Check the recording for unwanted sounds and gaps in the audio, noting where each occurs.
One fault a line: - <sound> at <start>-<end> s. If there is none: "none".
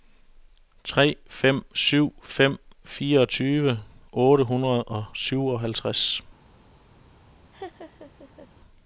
- laugh at 7.5-8.5 s